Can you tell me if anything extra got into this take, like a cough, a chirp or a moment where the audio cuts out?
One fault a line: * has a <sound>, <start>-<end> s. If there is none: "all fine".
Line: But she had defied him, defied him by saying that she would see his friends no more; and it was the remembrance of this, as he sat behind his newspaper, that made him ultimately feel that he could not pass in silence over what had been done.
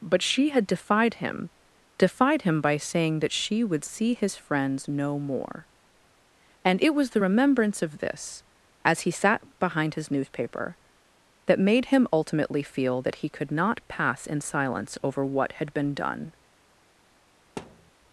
* has a thud, 17.6-17.9 s